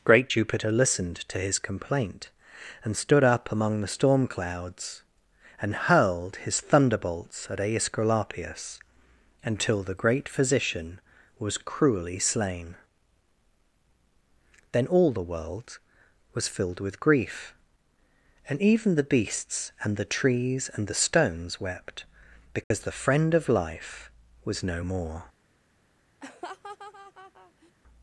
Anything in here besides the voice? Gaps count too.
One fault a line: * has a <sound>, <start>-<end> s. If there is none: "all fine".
* has a dropout, 22.6-22.7 s
* has a laugh, 26.2-27.7 s